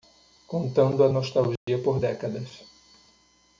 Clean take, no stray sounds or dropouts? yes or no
no